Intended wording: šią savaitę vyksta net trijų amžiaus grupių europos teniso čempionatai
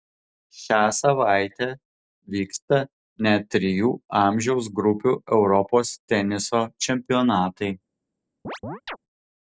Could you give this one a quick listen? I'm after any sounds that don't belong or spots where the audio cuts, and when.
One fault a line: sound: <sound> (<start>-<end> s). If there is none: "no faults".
sound: chirp (8.4-9.0 s)